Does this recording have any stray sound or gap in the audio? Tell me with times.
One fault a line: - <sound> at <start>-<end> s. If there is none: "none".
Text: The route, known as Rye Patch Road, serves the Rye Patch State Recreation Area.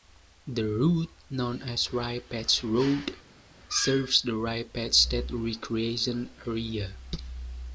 none